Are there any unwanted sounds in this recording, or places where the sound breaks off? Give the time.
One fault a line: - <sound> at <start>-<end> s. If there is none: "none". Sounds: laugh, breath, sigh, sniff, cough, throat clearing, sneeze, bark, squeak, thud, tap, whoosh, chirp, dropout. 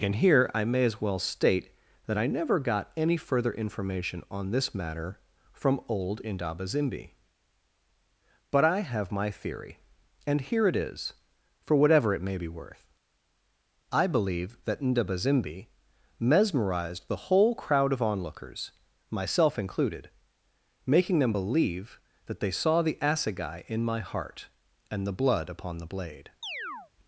- chirp at 26.4-26.9 s